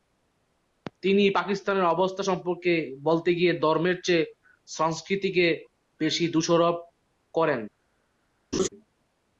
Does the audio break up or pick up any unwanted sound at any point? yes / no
yes